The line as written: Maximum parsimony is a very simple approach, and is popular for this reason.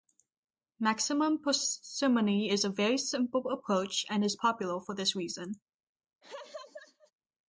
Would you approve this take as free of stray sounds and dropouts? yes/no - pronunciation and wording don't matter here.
no